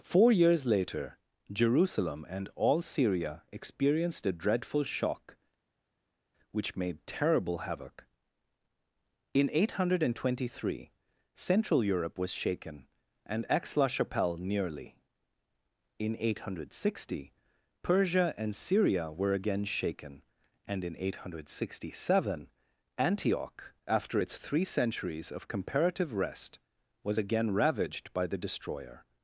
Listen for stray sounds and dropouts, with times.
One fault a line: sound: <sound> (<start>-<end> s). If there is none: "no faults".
no faults